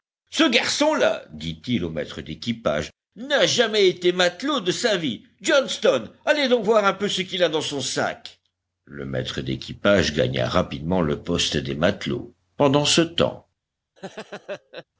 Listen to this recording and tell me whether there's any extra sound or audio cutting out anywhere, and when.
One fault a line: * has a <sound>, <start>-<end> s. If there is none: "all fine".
* has a laugh, 14.0-14.8 s